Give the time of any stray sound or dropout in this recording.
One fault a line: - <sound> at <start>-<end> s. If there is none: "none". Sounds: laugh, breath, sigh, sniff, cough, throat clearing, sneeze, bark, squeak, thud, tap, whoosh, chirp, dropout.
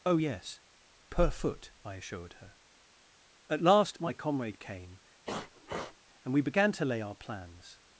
- sniff at 5.3-6.0 s